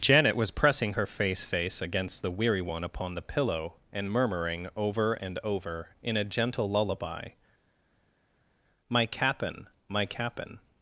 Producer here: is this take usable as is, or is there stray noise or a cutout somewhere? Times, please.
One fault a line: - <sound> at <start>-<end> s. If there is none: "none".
none